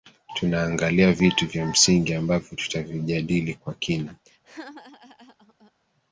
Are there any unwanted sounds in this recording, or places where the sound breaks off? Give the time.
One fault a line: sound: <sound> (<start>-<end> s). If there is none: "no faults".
sound: laugh (4.2-5.7 s)